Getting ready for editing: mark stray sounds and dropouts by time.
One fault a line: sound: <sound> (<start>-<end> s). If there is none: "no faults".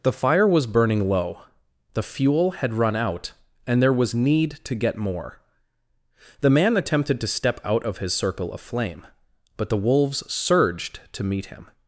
no faults